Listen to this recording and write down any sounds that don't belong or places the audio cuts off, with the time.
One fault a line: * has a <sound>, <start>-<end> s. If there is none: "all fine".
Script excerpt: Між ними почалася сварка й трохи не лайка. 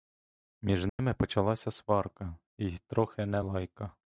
* has a dropout, 0.9-1.0 s